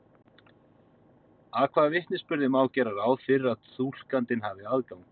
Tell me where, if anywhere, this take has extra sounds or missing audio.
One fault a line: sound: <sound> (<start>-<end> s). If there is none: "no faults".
no faults